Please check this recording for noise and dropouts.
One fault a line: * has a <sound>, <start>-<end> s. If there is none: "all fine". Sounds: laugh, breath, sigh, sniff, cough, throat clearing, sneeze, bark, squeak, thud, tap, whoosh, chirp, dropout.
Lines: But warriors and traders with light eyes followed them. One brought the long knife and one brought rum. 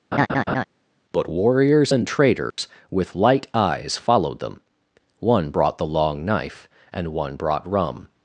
* has a laugh, 0.1-0.6 s
* has a dropout, 2.5-2.6 s